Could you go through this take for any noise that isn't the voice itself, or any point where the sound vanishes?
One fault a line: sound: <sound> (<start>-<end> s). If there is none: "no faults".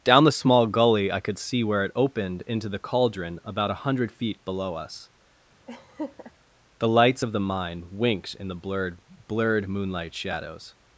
sound: laugh (5.7-6.3 s)